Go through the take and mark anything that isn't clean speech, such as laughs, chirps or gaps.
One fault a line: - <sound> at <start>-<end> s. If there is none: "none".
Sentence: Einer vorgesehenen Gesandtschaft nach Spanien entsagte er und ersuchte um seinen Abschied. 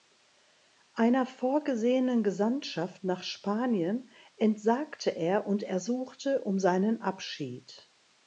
none